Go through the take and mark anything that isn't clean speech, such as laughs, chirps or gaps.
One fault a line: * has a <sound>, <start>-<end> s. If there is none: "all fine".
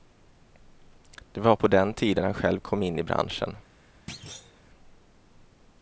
* has a thud, 4.1-4.6 s